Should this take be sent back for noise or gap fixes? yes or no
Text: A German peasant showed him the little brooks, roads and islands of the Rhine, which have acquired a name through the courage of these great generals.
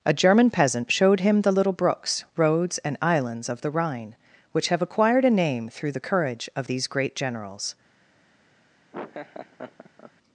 yes